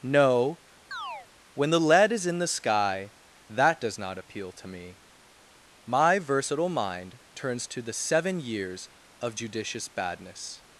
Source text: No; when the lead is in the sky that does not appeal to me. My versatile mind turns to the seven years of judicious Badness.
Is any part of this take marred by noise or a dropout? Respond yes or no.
yes